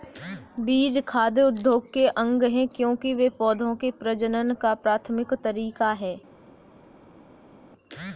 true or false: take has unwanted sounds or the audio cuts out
false